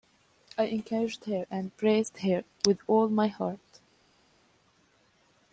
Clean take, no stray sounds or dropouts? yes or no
yes